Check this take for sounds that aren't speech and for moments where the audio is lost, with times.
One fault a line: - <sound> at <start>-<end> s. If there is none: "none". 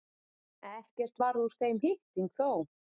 none